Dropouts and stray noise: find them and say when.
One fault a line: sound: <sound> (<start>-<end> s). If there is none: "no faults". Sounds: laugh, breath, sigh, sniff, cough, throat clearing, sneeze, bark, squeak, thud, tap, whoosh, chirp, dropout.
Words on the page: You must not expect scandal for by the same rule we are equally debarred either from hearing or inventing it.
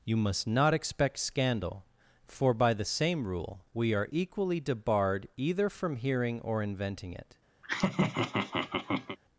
sound: laugh (7.6-9.2 s)